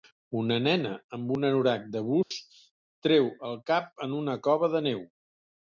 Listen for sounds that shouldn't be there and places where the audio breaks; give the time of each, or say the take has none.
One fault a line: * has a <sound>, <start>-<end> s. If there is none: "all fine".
* has a dropout, 2.2-2.3 s